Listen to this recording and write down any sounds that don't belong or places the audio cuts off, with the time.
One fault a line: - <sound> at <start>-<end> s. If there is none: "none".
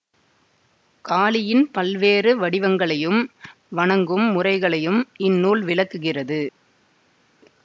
none